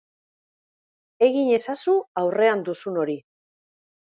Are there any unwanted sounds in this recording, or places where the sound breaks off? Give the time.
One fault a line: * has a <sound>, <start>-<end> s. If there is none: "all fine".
all fine